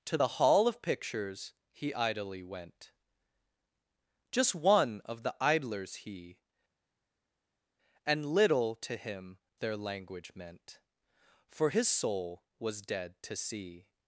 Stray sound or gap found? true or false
false